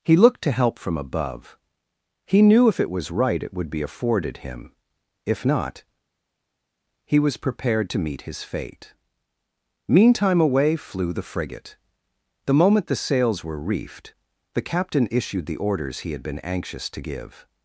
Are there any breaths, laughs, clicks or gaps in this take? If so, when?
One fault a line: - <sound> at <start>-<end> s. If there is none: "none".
none